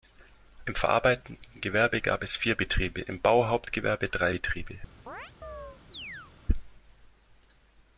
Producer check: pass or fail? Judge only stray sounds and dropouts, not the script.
fail